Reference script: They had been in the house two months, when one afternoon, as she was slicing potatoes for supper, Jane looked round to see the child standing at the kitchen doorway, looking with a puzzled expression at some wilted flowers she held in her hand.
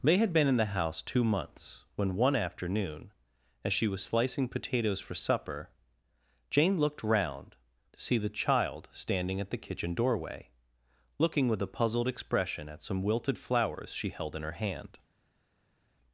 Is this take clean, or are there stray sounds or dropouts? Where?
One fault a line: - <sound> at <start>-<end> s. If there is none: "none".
none